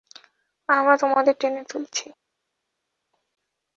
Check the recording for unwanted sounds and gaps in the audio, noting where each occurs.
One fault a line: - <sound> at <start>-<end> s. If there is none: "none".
none